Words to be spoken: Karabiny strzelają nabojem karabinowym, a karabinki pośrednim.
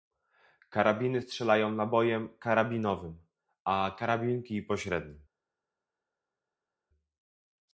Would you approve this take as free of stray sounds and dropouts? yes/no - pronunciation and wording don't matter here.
yes